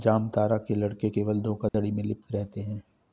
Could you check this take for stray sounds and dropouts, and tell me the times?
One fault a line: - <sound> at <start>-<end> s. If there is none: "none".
- dropout at 1.7-1.7 s